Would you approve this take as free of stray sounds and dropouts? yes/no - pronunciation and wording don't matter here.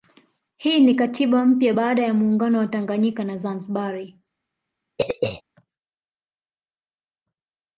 no